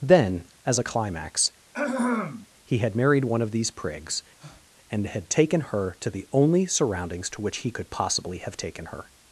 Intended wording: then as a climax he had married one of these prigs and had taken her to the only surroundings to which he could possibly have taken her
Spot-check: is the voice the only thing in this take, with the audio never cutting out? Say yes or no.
no